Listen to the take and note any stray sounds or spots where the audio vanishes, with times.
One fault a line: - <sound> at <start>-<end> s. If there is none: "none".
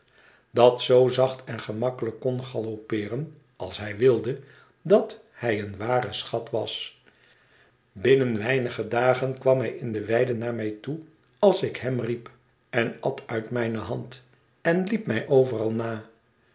none